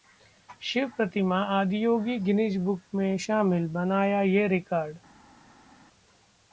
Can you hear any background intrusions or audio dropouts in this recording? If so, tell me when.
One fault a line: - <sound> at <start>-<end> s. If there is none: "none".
none